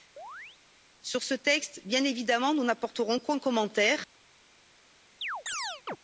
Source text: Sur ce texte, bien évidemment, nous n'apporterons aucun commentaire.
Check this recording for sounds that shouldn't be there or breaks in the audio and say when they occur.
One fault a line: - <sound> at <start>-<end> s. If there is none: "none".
- chirp at 0.2-0.6 s
- chirp at 5.2-6.0 s